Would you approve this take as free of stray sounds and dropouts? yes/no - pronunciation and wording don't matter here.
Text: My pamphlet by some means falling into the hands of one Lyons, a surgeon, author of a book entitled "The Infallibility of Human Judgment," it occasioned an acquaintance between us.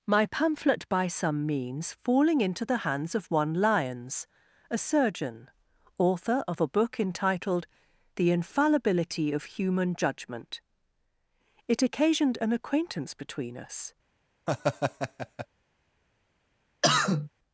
no